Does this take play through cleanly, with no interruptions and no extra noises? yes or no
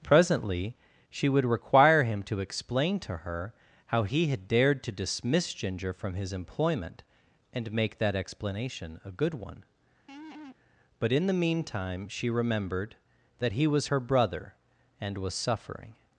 no